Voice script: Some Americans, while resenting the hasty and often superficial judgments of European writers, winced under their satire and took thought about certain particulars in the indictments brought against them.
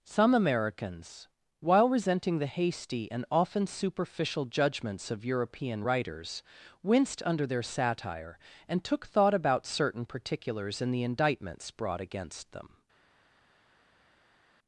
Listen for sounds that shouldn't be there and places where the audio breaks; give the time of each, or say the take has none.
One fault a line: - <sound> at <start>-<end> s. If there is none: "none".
none